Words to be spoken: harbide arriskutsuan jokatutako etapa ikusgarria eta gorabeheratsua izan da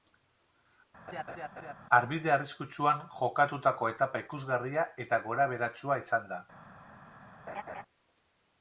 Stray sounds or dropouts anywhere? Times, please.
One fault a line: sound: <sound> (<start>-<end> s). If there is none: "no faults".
sound: laugh (1.1-1.7 s)
sound: laugh (7.5-7.8 s)